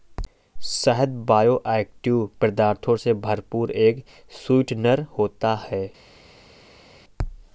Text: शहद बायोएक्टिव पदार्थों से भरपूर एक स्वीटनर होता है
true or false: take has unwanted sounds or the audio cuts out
false